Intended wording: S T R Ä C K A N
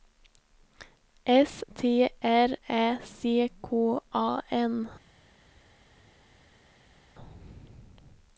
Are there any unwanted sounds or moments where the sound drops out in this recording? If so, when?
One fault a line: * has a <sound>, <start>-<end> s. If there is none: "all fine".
all fine